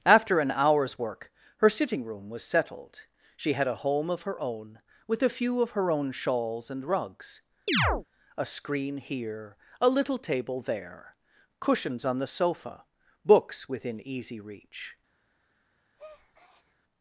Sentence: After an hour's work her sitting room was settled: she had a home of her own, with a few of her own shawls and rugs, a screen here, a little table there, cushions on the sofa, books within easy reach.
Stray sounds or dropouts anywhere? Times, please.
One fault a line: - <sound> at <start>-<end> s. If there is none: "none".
- chirp at 7.7-8.1 s
- breath at 16.0-16.8 s